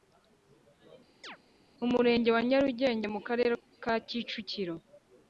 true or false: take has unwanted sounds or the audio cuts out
true